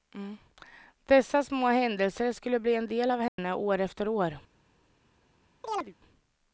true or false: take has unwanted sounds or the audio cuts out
true